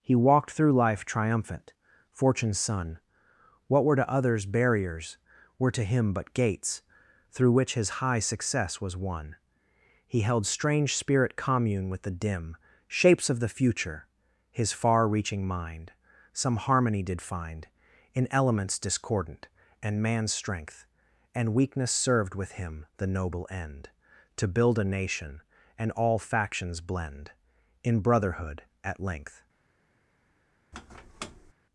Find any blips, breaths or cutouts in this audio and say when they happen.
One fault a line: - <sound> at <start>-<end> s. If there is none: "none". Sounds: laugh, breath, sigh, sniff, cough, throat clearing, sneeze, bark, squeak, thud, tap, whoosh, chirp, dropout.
- squeak at 30.7-31.5 s